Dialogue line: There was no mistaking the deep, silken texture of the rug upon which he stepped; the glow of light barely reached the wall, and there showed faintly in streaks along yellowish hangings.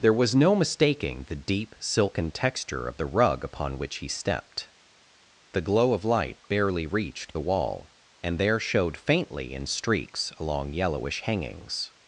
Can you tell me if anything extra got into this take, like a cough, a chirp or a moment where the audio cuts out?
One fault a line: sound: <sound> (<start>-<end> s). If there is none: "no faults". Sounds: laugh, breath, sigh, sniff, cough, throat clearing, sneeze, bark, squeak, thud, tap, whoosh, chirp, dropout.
no faults